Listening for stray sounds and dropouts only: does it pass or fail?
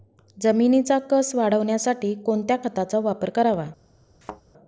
fail